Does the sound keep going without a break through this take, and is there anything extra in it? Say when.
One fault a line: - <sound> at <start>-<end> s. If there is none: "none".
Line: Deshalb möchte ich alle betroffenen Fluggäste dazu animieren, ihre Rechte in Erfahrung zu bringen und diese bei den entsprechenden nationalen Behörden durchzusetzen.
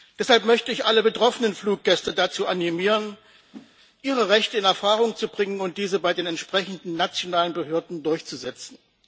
- whoosh at 3.5-3.8 s